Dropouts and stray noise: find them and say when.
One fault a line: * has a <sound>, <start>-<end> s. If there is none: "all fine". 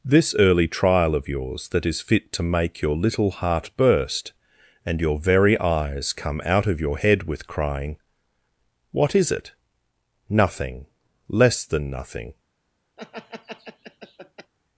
* has a laugh, 13.0-14.5 s